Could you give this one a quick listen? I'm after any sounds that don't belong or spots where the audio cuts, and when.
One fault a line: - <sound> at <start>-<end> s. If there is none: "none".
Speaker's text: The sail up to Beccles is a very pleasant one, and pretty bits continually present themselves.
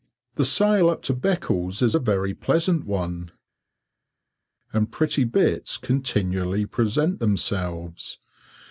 none